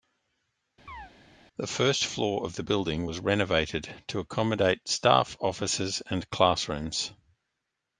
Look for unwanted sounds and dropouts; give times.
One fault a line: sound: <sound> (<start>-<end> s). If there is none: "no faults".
sound: chirp (0.9-1.1 s)